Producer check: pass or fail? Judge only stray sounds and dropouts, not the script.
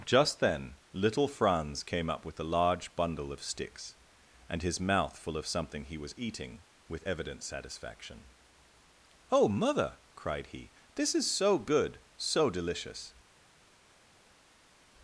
pass